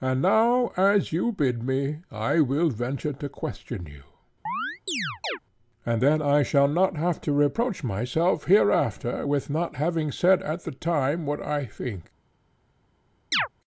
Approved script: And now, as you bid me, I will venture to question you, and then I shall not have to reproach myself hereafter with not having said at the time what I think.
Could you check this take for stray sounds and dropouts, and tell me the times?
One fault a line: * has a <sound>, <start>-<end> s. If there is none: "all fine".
* has a chirp, 4.5-5.4 s
* has a chirp, 13.3-13.5 s